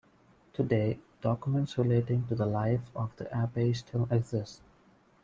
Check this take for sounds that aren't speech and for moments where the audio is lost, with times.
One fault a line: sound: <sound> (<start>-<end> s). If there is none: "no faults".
no faults